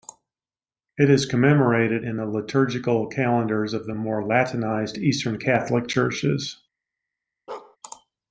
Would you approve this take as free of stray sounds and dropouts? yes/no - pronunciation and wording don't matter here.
no